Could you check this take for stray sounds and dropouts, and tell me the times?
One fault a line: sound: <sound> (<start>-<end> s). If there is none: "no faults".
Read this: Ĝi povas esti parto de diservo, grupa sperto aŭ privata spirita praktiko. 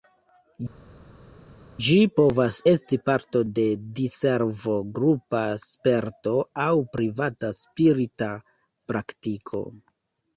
no faults